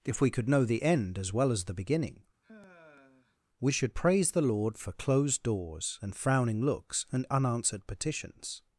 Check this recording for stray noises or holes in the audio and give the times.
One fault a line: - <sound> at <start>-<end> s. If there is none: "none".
- sigh at 2.4-3.4 s